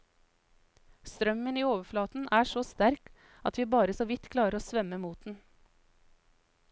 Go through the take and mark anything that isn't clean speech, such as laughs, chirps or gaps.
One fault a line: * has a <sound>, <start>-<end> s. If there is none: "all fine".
all fine